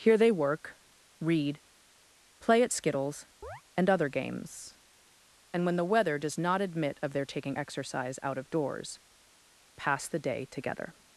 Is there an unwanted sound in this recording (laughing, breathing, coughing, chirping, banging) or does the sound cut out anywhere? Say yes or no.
yes